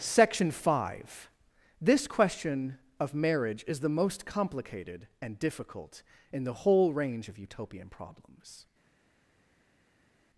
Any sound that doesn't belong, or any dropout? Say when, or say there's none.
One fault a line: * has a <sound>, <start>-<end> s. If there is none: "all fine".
all fine